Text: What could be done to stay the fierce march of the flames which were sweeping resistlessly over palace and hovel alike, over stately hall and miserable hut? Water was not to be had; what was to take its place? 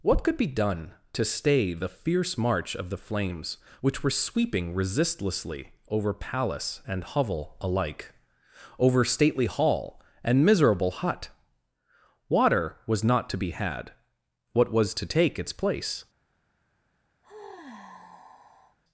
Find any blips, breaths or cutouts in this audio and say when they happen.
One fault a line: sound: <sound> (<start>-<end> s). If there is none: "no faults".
sound: sigh (17.2-18.8 s)